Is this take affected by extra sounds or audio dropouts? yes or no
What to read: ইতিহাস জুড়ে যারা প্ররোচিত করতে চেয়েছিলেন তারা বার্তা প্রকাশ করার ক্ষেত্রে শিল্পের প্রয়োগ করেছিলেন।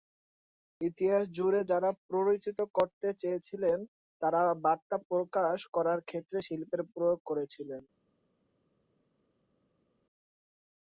no